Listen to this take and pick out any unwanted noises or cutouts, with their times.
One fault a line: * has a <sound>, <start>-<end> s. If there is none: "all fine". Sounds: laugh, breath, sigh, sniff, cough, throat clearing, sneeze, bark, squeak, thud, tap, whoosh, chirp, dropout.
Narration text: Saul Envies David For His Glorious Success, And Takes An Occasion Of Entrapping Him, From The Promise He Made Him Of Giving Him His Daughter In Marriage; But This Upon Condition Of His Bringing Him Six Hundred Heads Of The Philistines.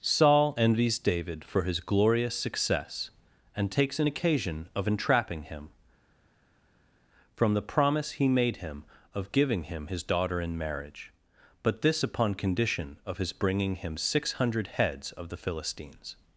all fine